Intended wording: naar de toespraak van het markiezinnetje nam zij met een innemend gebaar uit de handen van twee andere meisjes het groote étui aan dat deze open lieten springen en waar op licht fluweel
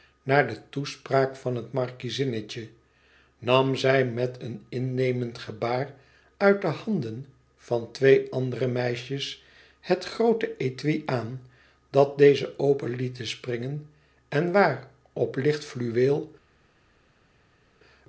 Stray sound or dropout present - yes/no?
no